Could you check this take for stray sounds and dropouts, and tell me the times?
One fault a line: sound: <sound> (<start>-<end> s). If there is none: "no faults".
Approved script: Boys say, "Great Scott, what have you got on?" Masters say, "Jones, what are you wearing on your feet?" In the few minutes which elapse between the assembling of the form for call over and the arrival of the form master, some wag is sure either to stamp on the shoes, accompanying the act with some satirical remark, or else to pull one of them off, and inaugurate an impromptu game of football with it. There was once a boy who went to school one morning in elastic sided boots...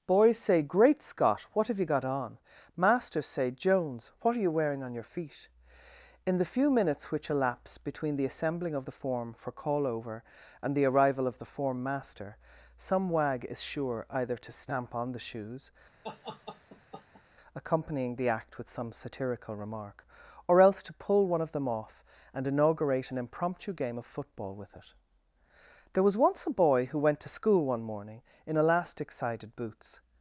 sound: laugh (16.0-17.2 s)